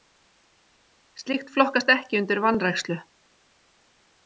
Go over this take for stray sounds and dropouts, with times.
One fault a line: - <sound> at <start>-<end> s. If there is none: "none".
none